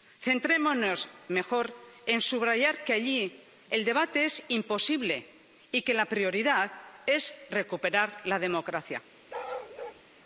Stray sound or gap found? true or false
true